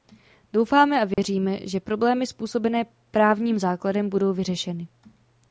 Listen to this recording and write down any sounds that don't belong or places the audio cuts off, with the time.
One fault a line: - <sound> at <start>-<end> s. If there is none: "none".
- dropout at 1.1-1.2 s